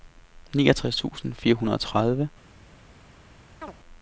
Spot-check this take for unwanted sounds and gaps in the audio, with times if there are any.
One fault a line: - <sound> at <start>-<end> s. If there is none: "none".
- chirp at 3.6-3.7 s